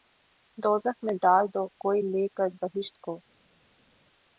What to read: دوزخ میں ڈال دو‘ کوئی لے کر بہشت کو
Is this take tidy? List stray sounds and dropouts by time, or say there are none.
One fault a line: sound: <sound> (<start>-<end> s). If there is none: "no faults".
no faults